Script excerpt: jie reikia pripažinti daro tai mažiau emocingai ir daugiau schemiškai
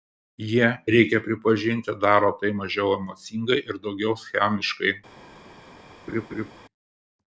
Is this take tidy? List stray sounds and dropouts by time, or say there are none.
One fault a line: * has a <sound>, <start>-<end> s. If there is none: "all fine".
* has a laugh, 6.1-6.5 s